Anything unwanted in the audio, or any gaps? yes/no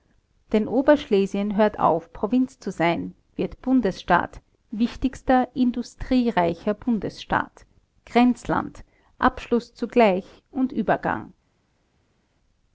no